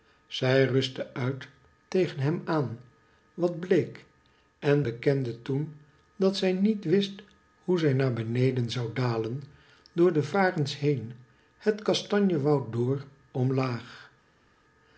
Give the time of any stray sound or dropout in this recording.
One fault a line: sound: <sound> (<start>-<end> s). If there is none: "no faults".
no faults